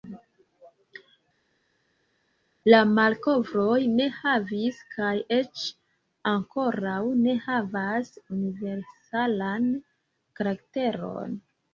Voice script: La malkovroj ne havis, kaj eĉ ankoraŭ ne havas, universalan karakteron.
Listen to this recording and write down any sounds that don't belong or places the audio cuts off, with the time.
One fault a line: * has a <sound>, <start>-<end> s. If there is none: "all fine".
all fine